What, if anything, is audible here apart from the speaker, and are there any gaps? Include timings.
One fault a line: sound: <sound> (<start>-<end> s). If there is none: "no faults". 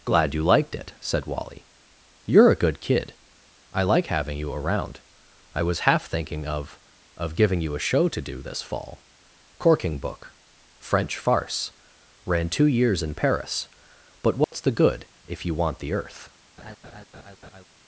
sound: dropout (14.4-14.5 s)
sound: laugh (16.6-17.6 s)